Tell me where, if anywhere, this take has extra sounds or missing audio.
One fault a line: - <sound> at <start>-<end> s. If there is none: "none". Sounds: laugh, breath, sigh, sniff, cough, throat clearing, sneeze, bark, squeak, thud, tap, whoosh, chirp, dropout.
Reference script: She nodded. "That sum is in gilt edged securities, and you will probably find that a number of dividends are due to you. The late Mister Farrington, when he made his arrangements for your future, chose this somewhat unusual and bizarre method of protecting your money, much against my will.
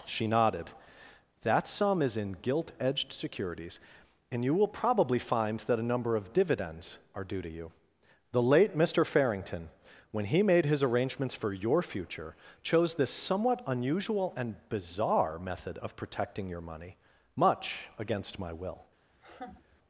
- laugh at 19.1-19.8 s